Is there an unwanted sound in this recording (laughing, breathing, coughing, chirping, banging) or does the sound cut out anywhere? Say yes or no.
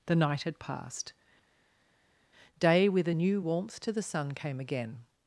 no